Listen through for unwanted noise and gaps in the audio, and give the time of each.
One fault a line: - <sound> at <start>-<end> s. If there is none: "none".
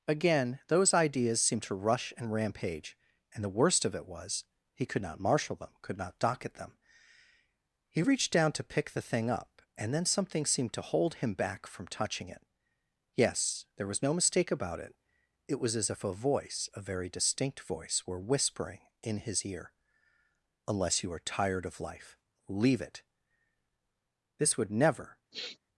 - sniff at 25.3-25.6 s